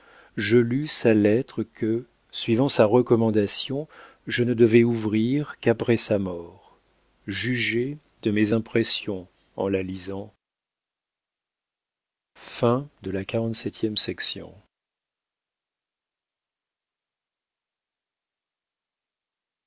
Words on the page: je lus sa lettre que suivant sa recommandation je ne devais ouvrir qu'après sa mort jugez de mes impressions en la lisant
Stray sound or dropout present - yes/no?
no